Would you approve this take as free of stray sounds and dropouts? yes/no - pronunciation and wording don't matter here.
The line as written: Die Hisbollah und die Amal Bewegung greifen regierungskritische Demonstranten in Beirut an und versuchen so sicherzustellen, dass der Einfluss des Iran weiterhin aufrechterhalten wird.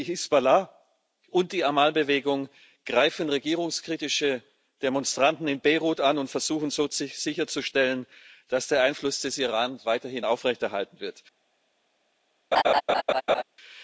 no